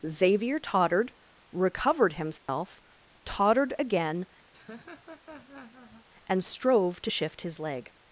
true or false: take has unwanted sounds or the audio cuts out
true